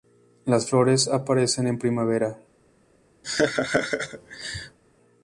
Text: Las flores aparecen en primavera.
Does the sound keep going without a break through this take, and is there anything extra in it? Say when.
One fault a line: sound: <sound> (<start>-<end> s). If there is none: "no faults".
sound: laugh (3.2-4.8 s)